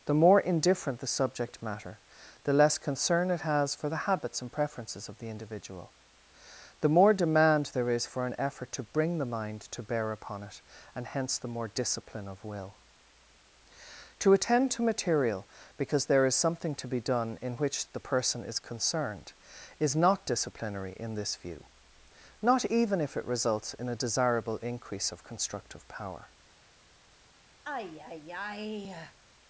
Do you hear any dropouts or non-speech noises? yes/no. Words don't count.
yes